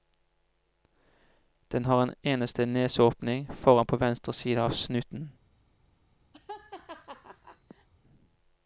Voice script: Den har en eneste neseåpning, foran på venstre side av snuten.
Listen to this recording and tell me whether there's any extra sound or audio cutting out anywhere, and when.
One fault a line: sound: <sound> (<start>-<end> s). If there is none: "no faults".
sound: laugh (6.3-7.9 s)